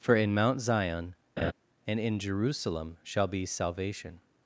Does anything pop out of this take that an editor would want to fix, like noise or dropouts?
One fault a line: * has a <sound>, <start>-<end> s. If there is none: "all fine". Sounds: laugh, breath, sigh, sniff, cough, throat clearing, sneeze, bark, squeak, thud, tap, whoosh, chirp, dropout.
* has a laugh, 1.4-1.5 s